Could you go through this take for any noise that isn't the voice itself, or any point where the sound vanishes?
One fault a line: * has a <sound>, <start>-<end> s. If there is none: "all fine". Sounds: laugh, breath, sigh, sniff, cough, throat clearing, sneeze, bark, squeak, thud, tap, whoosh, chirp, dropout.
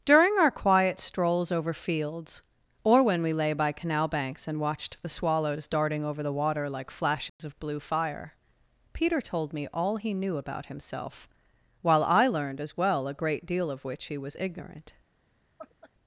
* has a dropout, 7.3-7.4 s
* has a laugh, 15.6-15.9 s